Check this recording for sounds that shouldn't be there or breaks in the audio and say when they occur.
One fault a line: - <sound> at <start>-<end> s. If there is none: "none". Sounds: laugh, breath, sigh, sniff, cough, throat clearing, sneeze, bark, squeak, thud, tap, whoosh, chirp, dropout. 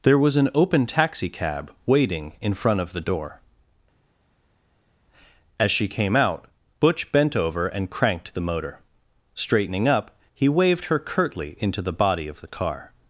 none